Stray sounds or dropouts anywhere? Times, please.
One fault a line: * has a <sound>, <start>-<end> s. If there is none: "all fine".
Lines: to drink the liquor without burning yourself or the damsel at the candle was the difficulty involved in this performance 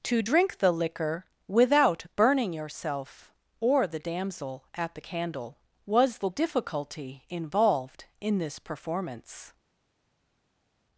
all fine